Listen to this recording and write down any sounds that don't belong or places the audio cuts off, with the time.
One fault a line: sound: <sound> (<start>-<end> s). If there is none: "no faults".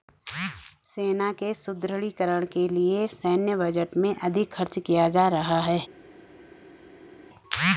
no faults